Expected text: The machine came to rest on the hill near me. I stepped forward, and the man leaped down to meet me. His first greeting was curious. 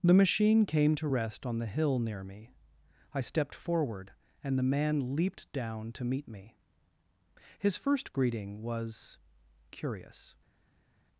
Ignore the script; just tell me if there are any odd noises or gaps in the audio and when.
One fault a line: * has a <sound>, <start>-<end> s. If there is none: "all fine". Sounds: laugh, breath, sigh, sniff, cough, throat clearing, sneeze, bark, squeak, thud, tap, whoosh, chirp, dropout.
all fine